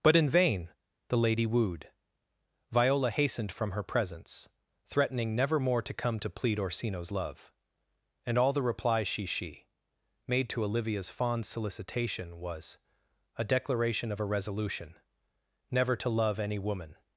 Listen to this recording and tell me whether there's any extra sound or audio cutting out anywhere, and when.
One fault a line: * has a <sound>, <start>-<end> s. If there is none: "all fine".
all fine